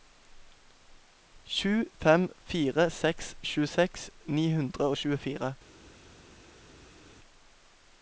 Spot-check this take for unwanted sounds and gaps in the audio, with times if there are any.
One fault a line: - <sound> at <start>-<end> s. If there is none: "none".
none